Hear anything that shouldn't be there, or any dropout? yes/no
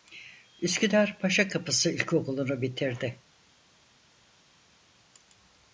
no